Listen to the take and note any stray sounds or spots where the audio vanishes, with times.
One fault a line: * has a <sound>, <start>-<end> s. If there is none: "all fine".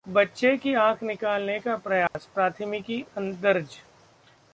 * has a dropout, 2.1-2.1 s